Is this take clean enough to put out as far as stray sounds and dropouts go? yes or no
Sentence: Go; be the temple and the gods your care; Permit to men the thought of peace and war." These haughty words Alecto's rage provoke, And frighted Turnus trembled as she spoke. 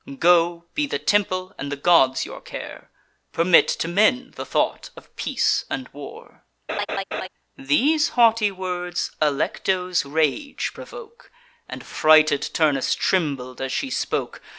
no